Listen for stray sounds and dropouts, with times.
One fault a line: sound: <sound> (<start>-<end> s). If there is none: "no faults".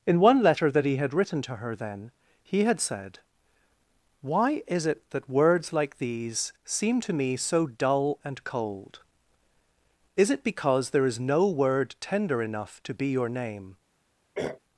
sound: throat clearing (14.3-14.6 s)